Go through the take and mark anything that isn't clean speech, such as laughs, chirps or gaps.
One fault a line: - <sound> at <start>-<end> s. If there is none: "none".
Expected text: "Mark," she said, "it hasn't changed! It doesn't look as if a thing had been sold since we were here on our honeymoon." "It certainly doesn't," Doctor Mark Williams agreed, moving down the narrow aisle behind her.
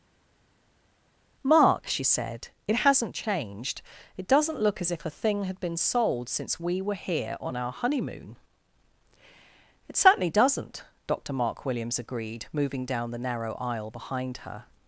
none